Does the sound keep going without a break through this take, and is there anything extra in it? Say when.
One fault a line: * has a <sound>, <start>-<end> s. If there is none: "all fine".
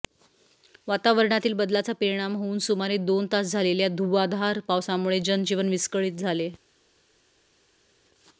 all fine